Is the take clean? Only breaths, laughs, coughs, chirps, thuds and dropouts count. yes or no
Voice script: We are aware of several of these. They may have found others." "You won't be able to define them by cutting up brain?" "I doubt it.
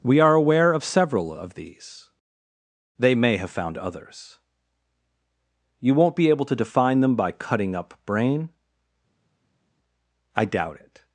yes